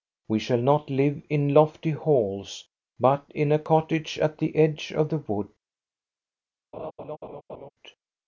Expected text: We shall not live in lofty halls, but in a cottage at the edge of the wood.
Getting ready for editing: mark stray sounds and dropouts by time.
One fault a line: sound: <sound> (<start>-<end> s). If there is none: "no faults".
sound: laugh (6.7-7.7 s)